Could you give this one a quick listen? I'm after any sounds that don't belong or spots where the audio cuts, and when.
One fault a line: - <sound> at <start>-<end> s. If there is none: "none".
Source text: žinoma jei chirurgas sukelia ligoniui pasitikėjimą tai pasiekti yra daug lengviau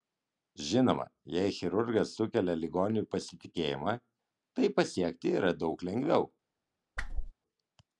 - whoosh at 7.0-7.3 s